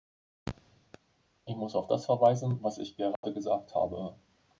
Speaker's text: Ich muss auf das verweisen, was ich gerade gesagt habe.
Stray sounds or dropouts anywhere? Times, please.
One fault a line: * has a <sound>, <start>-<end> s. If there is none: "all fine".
* has a dropout, 3.2-3.2 s